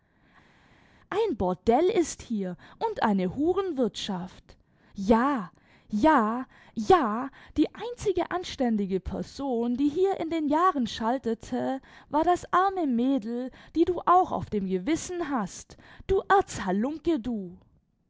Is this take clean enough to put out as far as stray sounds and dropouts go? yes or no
yes